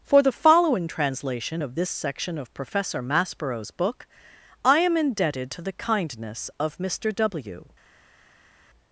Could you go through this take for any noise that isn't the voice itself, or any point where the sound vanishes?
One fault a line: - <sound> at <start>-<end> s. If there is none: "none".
none